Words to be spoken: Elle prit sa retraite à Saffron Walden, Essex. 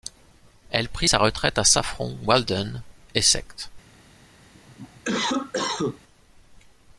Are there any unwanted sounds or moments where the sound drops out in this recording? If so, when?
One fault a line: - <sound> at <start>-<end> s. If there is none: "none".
- cough at 4.5-6.0 s